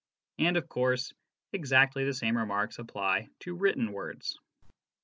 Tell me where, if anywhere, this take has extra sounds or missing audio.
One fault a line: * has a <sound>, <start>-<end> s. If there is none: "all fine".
all fine